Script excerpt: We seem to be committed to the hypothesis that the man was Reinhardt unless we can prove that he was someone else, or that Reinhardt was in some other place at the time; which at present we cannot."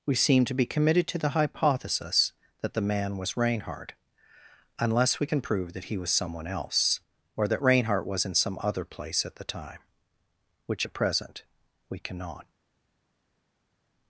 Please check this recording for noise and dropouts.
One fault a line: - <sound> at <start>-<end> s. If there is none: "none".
none